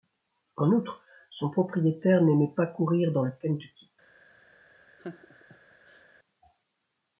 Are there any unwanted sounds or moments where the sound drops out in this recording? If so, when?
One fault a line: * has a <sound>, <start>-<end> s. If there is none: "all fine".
* has a laugh, 5.0-6.1 s